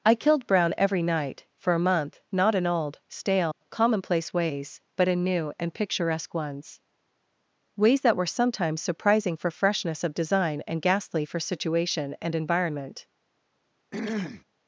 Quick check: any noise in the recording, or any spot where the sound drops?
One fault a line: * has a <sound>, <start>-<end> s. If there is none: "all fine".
* has a dropout, 3.5-3.6 s
* has a throat clearing, 13.9-14.4 s